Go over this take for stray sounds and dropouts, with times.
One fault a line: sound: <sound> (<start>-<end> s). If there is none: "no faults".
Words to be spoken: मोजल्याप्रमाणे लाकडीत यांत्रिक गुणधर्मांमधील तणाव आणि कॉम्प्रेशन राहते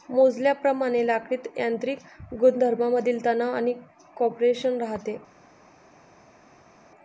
no faults